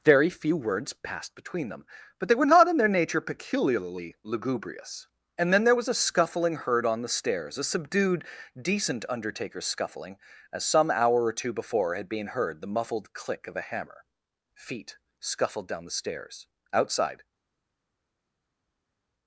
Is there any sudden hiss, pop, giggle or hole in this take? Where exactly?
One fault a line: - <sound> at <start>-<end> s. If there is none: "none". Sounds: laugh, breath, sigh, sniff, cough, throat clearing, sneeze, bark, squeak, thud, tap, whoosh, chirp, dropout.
none